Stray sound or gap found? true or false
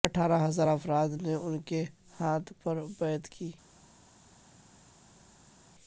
false